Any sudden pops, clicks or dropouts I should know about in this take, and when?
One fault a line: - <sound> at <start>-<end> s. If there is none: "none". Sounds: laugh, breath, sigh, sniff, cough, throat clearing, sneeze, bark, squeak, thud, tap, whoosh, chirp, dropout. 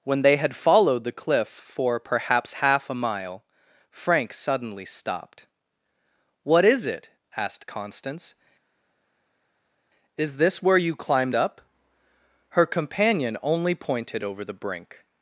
none